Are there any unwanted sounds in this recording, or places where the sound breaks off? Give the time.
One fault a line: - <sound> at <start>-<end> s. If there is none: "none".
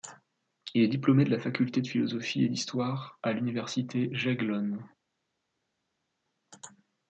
none